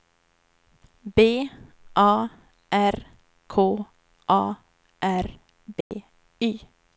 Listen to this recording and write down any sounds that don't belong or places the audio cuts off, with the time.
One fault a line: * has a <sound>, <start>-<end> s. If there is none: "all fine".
* has a dropout, 5.8-5.9 s